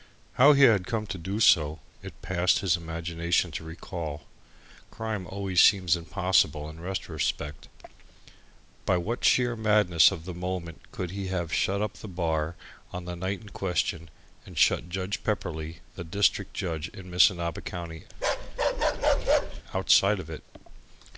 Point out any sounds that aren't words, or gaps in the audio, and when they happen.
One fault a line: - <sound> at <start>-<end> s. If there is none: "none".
- bark at 18.1-19.6 s